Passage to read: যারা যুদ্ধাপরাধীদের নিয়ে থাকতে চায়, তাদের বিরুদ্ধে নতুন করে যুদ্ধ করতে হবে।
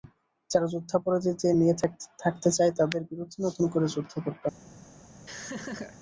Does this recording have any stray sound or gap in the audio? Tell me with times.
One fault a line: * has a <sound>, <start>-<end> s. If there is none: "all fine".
* has a laugh, 5.3-6.0 s